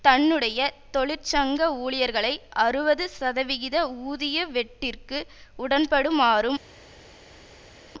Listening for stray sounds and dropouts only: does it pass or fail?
pass